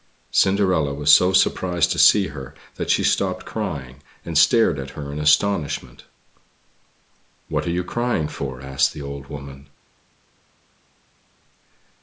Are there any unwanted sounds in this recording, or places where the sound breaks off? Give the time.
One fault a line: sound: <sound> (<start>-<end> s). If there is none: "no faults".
no faults